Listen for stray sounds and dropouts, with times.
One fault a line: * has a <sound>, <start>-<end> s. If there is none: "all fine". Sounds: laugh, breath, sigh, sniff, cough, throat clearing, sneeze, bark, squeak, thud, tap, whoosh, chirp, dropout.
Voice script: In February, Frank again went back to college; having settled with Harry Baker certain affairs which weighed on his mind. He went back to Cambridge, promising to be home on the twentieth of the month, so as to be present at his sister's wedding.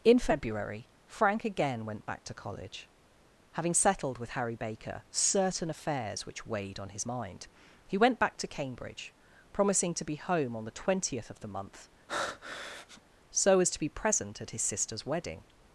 * has a breath, 12.1-13.0 s